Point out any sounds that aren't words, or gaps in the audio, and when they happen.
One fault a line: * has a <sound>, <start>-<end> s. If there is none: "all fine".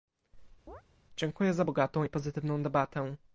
* has a chirp, 0.7-0.8 s